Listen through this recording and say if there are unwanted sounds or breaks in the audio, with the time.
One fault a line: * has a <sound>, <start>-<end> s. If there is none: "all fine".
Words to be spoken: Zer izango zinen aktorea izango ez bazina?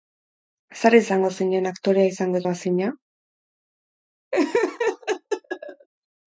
* has a laugh, 4.3-5.9 s